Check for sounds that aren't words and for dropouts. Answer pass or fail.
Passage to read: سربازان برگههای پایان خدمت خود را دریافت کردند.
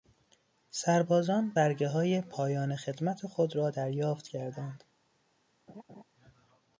fail